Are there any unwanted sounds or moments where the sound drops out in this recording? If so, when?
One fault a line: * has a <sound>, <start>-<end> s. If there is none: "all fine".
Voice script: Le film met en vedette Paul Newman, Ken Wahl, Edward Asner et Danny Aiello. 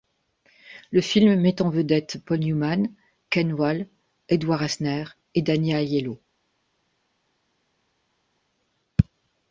all fine